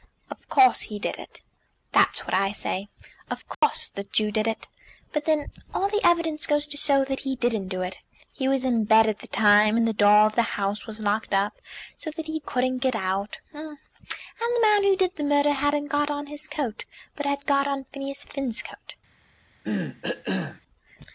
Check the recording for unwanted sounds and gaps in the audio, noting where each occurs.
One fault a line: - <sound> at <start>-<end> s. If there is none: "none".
- dropout at 3.5-3.6 s
- cough at 19.6-20.6 s